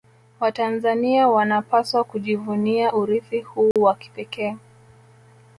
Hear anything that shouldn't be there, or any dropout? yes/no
yes